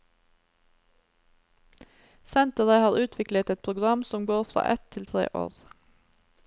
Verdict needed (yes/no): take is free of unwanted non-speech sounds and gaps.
yes